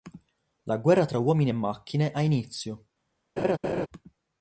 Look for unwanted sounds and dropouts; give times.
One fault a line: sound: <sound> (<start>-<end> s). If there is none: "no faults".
sound: laugh (3.4-3.9 s)